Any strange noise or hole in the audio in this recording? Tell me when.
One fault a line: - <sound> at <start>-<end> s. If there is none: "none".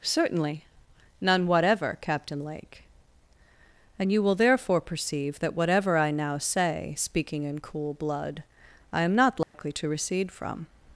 - dropout at 9.4-9.5 s